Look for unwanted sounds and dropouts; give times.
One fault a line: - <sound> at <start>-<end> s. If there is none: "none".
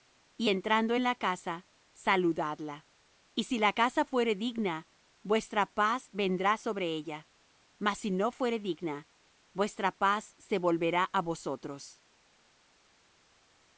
none